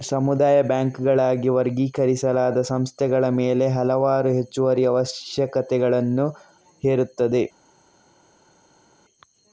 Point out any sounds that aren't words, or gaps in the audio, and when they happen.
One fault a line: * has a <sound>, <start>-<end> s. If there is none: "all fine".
all fine